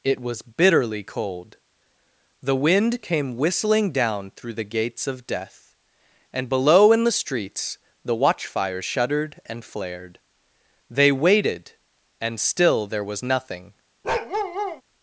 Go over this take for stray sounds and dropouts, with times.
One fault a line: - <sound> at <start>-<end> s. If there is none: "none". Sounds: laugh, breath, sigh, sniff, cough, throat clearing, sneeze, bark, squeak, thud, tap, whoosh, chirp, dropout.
- bark at 14.0-14.8 s